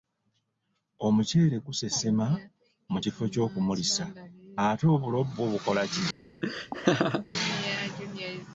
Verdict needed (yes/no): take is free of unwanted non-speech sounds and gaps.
no